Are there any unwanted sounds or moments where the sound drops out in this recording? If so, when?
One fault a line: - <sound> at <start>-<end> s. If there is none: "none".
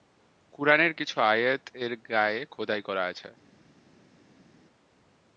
none